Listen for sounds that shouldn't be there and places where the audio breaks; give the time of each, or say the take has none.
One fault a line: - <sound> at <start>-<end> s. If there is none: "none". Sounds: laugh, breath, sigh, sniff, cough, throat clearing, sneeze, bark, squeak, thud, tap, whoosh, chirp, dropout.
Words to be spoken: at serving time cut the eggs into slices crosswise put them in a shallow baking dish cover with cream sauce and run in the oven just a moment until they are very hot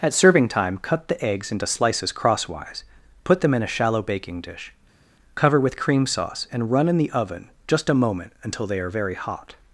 none